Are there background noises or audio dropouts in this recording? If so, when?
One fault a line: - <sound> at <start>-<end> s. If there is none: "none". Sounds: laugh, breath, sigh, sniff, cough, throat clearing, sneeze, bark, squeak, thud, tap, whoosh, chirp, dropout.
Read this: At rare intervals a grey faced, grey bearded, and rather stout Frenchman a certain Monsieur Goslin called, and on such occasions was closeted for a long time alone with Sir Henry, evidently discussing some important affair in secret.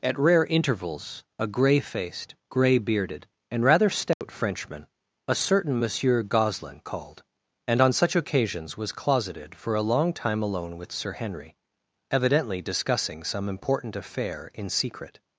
- dropout at 4.1-4.2 s